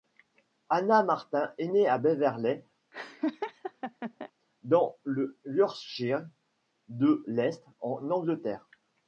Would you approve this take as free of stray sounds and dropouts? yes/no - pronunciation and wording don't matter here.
no